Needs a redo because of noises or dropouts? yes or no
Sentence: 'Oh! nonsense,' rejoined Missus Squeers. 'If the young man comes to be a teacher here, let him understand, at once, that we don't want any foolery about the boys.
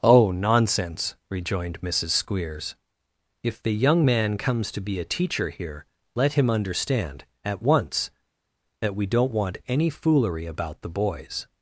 no